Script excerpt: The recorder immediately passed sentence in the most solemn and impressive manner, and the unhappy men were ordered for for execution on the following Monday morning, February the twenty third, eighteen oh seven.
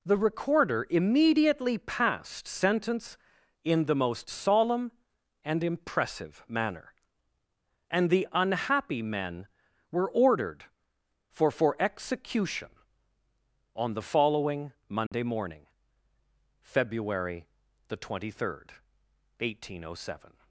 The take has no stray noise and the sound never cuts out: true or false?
false